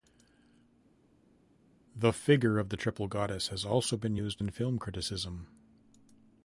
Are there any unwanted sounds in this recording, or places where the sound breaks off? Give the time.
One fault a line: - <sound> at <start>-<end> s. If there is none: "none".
none